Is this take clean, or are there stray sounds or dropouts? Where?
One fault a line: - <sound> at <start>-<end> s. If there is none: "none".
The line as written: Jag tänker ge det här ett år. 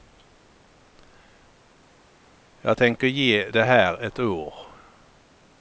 none